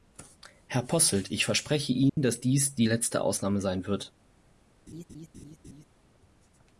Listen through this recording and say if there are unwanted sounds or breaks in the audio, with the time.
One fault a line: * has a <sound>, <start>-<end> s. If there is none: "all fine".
* has a dropout, 2.1-2.2 s
* has a laugh, 4.9-5.8 s